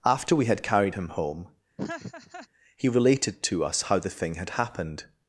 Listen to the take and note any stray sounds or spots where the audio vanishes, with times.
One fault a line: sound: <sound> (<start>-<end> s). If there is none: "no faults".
sound: laugh (1.8-2.5 s)